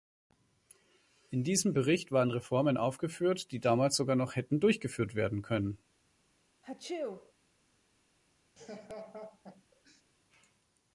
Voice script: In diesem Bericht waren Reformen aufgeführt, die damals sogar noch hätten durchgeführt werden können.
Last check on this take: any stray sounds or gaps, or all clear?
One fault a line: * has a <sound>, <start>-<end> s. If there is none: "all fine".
* has a sneeze, 6.6-7.3 s
* has a laugh, 8.6-10.0 s